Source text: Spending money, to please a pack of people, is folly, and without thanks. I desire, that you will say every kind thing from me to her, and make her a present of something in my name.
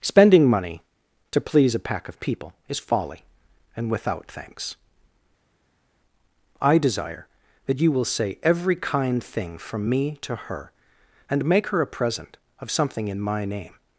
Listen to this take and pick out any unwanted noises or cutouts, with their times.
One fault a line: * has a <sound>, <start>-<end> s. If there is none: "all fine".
all fine